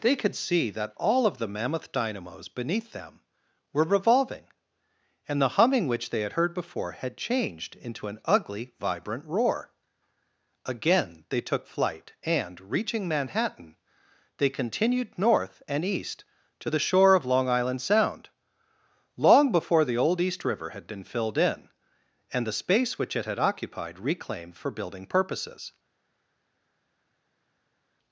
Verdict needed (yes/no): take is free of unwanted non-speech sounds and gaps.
yes